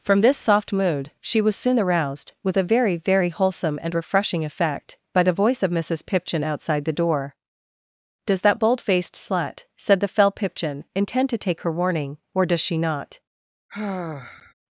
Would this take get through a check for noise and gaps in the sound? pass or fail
fail